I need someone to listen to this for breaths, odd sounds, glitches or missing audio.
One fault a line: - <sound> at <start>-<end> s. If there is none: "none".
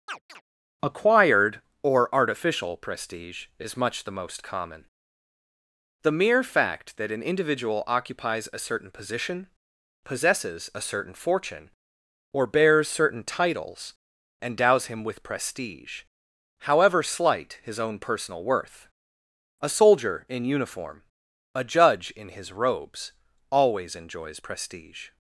- chirp at 0.1-0.4 s